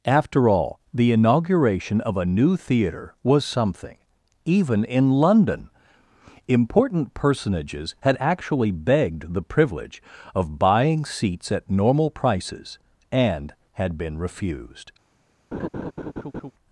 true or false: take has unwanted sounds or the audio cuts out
true